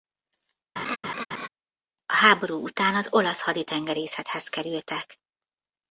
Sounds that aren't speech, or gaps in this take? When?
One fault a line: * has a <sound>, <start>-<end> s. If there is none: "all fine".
* has a laugh, 0.8-1.5 s